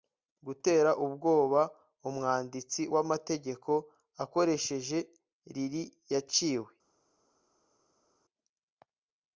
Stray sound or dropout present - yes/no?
no